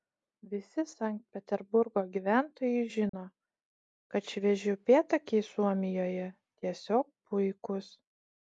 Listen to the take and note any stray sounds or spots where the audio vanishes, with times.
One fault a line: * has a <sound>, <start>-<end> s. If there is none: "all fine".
* has a dropout, 3.1-3.1 s